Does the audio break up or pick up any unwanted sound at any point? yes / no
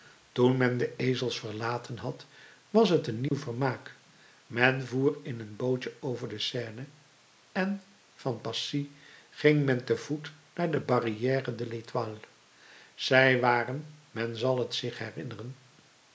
yes